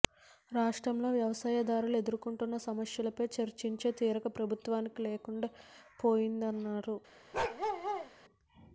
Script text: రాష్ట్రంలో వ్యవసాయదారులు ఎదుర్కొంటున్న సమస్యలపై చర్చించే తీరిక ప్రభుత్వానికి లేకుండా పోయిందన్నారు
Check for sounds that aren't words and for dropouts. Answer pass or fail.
fail